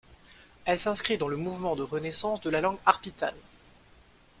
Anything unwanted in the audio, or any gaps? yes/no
no